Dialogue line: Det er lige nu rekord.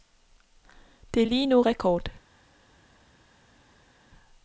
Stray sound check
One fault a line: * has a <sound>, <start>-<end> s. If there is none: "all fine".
all fine